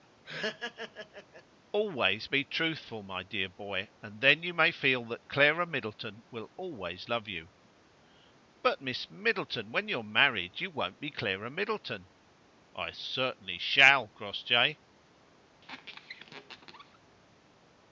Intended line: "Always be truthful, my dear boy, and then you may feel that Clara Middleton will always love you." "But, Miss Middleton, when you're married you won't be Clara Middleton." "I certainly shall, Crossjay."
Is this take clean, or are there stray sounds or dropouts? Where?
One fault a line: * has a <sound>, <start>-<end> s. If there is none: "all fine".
* has a laugh, 0.2-1.4 s
* has a squeak, 15.6-17.0 s